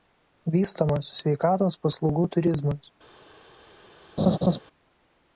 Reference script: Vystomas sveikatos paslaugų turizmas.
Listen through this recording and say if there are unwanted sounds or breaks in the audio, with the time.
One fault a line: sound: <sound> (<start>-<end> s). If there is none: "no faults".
sound: laugh (4.2-4.6 s)